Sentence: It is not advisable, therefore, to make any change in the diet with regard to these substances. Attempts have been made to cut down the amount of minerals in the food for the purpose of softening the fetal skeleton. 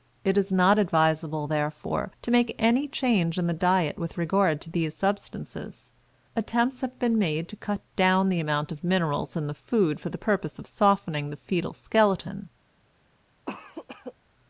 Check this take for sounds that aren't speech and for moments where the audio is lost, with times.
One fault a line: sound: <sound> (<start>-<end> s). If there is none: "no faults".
sound: cough (13.5-14.1 s)